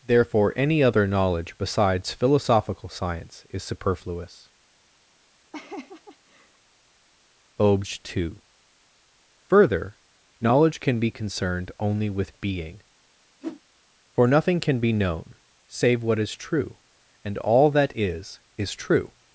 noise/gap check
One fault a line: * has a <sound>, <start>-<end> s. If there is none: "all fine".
* has a laugh, 5.5-6.6 s
* has a whoosh, 13.4-13.6 s